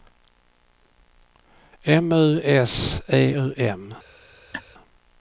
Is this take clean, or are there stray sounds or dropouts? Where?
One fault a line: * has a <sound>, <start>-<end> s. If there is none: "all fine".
* has a laugh, 4.5-4.6 s